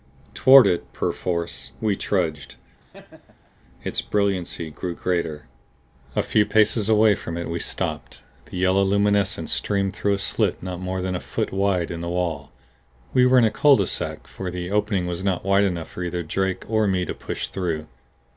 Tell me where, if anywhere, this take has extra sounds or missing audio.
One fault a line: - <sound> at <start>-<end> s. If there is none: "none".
- laugh at 2.8-3.5 s